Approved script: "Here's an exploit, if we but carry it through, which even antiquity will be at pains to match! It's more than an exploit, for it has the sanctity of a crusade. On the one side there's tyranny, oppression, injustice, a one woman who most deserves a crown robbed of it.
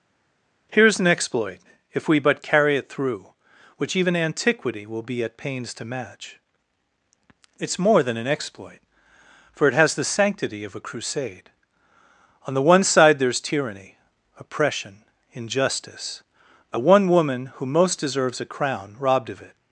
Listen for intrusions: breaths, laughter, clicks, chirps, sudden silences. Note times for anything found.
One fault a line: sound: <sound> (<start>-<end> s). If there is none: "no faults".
no faults